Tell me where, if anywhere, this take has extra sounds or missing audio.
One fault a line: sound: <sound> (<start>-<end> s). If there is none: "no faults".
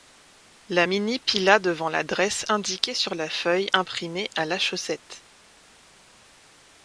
no faults